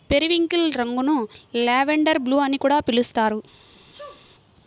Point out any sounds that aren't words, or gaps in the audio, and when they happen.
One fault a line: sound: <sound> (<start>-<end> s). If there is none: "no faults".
sound: sneeze (3.7-4.3 s)